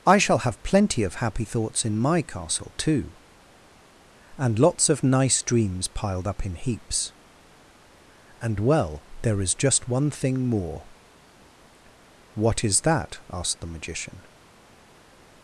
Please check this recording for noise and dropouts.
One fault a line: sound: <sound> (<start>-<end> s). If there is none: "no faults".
no faults